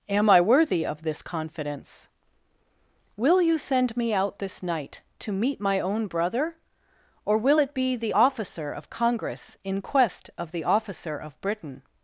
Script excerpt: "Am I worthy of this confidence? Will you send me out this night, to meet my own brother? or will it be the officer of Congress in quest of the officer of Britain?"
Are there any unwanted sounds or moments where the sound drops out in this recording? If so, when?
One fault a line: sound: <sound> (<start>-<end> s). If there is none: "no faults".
no faults